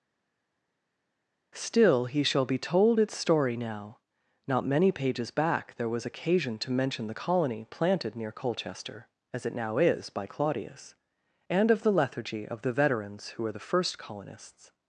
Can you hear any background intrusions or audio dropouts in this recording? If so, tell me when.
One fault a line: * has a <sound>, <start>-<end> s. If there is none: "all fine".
all fine